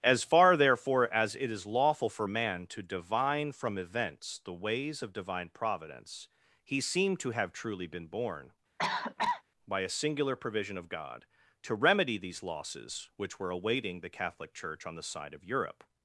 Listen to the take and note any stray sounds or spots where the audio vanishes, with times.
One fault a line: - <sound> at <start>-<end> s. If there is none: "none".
- cough at 8.8-9.4 s